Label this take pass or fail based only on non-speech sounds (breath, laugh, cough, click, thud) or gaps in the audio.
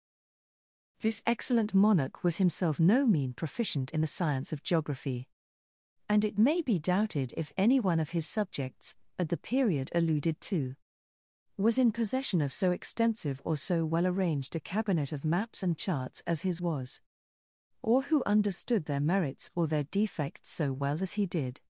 pass